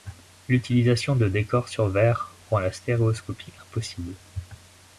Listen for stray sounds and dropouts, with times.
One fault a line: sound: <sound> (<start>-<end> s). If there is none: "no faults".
no faults